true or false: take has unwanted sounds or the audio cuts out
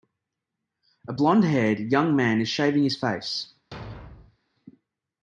true